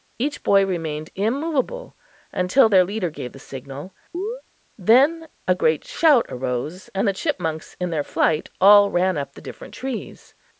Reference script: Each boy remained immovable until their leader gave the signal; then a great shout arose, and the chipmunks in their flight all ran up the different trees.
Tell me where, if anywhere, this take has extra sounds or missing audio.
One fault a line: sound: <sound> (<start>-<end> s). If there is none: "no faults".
sound: chirp (4.1-4.4 s)